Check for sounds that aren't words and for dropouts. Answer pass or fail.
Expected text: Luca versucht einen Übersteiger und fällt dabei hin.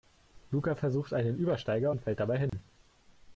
fail